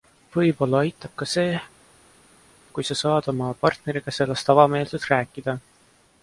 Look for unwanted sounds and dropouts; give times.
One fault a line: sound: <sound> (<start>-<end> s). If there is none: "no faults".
no faults